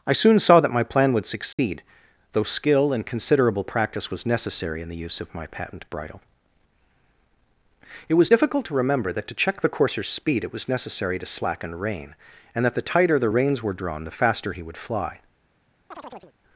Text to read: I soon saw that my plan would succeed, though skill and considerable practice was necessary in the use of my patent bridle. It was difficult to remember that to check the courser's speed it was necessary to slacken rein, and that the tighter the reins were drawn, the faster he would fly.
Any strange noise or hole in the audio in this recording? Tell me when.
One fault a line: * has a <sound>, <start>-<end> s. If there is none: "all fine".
* has a dropout, 1.5-1.6 s
* has a chirp, 15.9-16.3 s